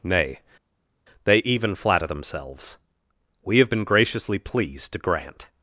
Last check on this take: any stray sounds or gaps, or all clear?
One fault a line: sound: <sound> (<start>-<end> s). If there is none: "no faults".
no faults